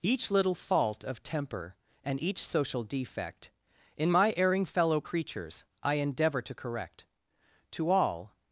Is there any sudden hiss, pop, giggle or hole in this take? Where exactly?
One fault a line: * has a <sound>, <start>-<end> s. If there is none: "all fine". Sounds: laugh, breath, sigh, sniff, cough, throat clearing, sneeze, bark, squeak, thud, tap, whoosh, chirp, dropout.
all fine